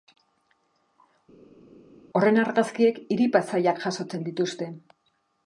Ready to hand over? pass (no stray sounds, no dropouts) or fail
pass